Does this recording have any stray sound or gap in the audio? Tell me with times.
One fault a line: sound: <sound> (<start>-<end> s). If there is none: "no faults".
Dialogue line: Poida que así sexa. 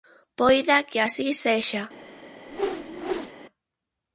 sound: whoosh (2.5-3.3 s)